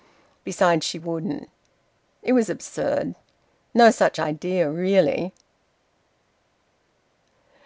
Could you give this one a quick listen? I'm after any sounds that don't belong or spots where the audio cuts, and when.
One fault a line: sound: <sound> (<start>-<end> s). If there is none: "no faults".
no faults